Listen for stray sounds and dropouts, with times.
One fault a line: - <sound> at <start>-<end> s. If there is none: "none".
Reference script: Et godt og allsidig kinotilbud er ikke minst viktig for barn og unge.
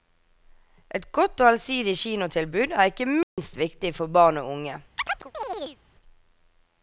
- dropout at 3.2-3.4 s
- chirp at 5.0-5.8 s